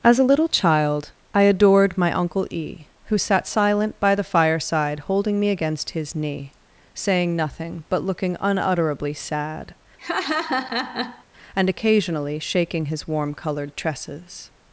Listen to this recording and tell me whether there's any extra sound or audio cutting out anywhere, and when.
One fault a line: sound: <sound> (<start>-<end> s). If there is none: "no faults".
sound: laugh (10.0-11.2 s)